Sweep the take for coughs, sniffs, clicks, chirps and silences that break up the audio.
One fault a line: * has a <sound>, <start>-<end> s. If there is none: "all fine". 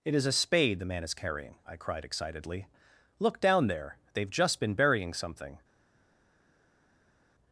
all fine